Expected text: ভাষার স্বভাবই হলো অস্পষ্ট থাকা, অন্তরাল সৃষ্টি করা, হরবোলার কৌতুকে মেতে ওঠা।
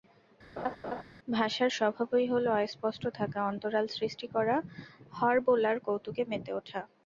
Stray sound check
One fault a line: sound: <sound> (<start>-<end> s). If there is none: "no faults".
sound: laugh (0.6-1.0 s)